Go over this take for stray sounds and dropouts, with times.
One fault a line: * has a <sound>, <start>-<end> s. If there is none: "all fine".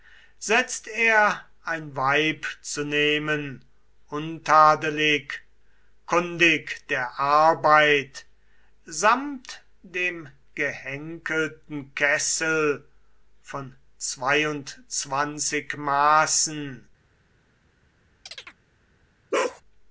* has a chirp, 18.3-18.6 s
* has a bark, 19.3-19.6 s